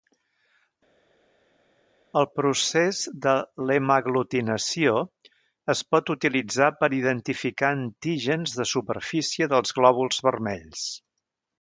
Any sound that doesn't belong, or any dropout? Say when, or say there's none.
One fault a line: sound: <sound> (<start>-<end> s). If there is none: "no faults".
no faults